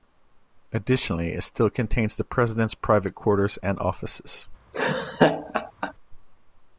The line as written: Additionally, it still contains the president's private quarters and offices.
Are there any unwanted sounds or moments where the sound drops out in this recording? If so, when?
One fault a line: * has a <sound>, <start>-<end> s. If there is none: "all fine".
* has a laugh, 4.7-5.9 s